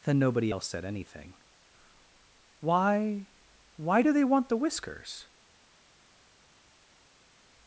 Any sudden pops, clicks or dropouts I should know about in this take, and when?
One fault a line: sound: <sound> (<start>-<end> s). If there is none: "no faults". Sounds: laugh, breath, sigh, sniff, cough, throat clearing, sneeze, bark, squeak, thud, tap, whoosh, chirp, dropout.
no faults